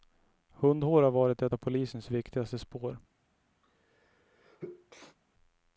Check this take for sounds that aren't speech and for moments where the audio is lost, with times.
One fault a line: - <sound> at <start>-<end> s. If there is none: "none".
- sneeze at 3.6-5.2 s